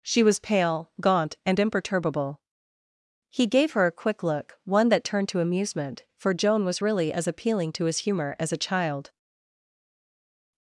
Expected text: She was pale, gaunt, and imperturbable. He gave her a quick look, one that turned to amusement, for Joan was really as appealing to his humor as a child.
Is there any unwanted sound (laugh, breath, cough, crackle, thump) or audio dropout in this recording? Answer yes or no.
no